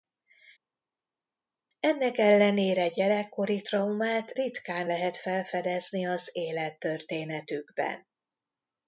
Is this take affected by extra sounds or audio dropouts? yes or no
no